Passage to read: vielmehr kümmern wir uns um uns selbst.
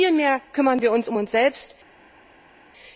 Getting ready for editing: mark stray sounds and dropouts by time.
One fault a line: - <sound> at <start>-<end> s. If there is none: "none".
none